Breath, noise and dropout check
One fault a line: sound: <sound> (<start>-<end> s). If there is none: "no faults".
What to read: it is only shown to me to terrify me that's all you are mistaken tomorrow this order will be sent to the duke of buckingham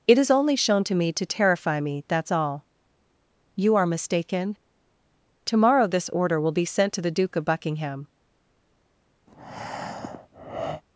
sound: breath (9.3-10.8 s)